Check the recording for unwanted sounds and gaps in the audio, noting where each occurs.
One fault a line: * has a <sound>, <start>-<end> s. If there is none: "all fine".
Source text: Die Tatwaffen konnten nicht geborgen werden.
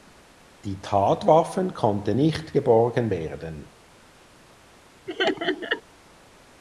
* has a laugh, 5.1-5.8 s